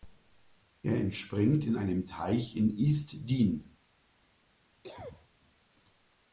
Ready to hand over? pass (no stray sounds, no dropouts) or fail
fail